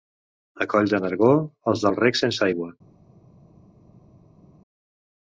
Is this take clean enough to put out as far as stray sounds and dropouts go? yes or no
yes